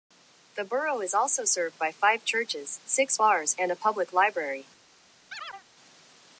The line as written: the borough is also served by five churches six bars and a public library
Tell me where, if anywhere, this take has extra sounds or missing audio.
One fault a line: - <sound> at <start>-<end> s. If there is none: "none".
- chirp at 5.3-5.7 s